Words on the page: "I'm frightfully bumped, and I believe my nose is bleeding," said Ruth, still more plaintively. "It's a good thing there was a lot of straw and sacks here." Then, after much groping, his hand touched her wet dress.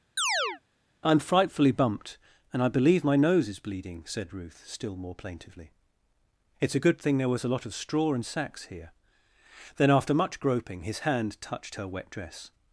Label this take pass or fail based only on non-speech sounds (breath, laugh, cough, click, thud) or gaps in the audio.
fail